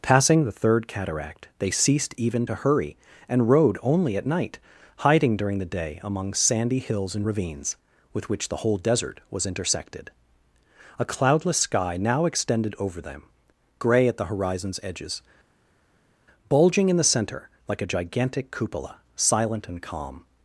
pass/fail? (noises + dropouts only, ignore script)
pass